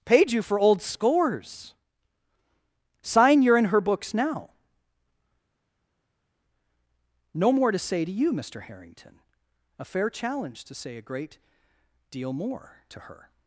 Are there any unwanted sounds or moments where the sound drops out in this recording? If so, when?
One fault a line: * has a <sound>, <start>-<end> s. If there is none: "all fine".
all fine